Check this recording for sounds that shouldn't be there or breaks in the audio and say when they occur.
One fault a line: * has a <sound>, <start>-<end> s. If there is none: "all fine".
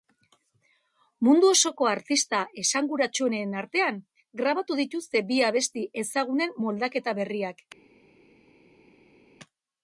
all fine